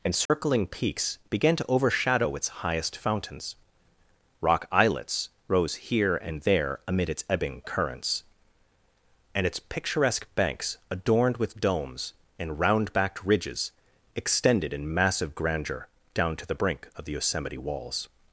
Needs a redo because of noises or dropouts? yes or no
yes